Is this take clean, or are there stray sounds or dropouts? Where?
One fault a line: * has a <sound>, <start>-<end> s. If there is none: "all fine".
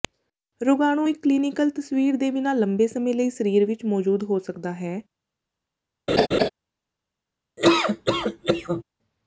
* has a laugh, 6.1-6.5 s
* has a laugh, 7.6-8.8 s